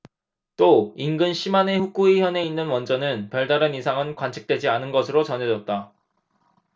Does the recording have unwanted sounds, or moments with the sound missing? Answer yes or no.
no